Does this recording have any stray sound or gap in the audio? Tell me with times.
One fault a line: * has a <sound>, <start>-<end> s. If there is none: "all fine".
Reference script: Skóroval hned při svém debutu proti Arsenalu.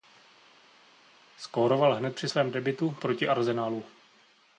all fine